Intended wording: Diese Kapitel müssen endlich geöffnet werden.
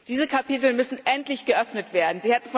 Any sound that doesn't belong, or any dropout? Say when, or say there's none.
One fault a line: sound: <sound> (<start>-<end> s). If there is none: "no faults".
no faults